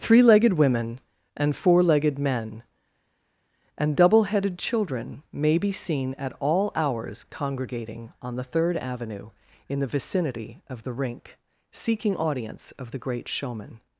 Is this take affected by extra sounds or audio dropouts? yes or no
no